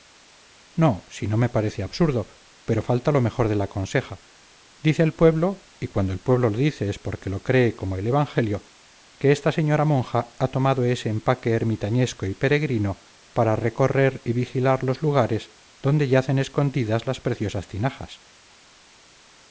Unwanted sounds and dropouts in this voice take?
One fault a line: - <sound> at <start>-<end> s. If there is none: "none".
none